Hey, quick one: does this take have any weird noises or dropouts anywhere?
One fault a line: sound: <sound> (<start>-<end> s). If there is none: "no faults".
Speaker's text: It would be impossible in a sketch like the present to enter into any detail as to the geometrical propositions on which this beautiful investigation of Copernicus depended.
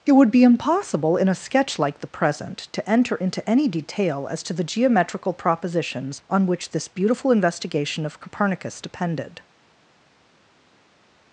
no faults